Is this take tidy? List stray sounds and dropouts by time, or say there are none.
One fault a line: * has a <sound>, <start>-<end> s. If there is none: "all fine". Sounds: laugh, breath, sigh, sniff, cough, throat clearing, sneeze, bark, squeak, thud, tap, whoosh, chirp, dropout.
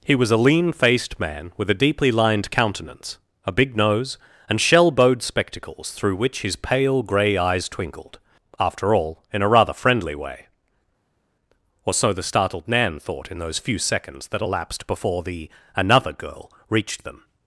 all fine